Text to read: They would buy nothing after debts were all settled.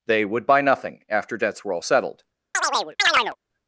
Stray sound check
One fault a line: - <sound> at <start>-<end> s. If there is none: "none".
- chirp at 2.5-3.4 s